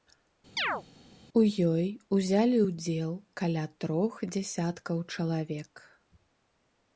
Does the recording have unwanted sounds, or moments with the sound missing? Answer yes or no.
yes